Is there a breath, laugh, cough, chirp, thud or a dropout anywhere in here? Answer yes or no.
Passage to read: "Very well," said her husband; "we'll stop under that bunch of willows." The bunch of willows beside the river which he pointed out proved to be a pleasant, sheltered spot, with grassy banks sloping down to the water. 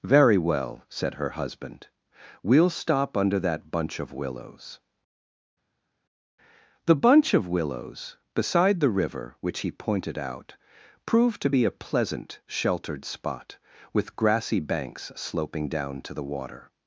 no